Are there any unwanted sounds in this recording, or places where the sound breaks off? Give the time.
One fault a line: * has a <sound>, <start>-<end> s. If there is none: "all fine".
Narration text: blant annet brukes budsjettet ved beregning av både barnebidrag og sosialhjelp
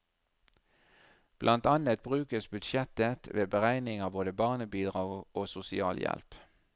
all fine